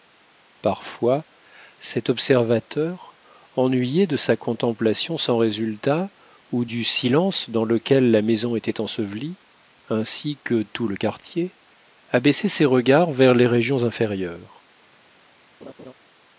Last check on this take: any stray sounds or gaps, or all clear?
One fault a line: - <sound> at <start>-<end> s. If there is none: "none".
- laugh at 15.6-15.9 s